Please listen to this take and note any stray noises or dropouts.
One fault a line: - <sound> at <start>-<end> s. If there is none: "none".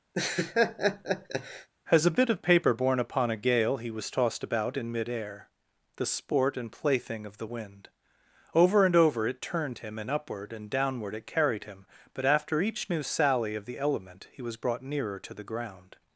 - laugh at 0.1-1.7 s